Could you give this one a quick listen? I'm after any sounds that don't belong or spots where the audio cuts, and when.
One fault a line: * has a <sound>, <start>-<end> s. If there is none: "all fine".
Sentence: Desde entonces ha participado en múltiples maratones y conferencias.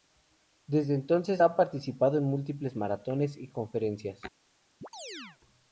* has a chirp, 4.8-5.4 s